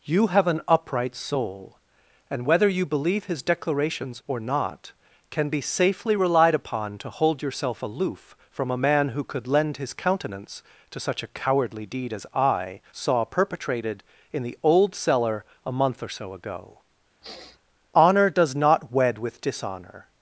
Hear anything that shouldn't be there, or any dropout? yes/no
yes